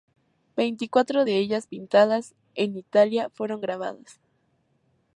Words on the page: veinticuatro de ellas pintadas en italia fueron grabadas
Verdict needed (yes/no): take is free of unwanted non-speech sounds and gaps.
yes